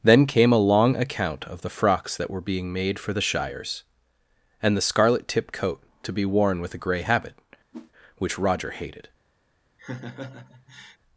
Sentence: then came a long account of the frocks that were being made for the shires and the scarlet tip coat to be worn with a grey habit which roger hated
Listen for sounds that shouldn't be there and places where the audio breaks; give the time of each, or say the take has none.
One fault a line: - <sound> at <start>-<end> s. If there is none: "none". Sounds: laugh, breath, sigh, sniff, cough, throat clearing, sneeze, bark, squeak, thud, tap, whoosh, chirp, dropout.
- whoosh at 7.7-7.9 s
- laugh at 9.8-11.0 s